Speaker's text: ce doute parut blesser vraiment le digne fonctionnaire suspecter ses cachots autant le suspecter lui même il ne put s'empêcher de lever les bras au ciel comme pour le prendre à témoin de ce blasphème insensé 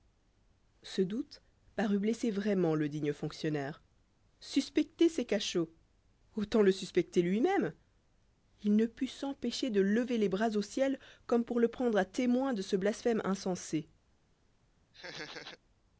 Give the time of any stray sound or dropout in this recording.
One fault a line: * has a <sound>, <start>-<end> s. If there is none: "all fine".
* has a laugh, 14.9-15.6 s